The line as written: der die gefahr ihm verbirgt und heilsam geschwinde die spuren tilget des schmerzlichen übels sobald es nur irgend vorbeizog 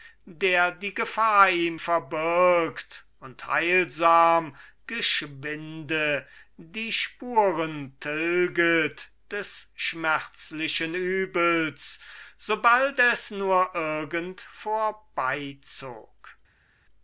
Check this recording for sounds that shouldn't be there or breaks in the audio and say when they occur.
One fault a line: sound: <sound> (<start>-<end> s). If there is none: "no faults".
no faults